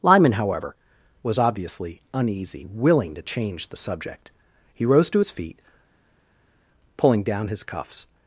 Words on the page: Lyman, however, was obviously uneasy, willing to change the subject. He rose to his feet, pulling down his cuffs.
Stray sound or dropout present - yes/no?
no